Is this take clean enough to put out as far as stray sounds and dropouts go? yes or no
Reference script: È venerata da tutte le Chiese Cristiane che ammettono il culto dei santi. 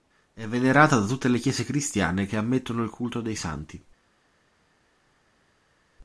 yes